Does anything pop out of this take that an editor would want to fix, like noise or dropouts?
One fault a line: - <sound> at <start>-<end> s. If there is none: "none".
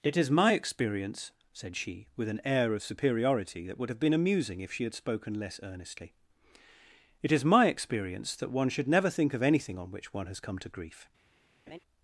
- laugh at 11.7-11.8 s